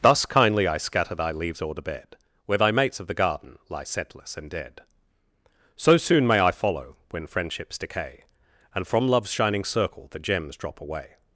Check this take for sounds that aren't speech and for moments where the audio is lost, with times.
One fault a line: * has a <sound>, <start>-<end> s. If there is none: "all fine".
all fine